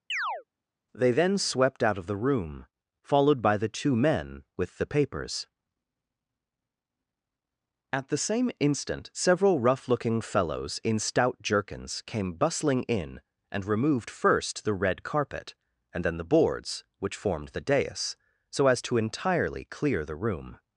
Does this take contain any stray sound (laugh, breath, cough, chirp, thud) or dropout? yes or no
yes